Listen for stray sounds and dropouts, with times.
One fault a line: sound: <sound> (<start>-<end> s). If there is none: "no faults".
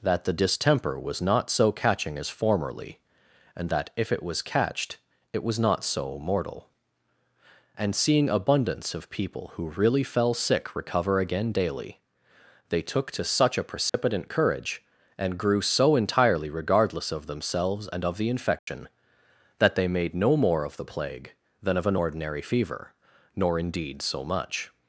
sound: dropout (13.9-13.9 s)
sound: dropout (18.6-18.7 s)